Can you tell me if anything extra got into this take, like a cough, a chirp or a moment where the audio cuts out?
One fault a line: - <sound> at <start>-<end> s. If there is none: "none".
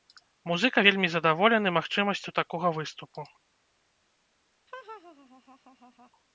- laugh at 4.7-6.1 s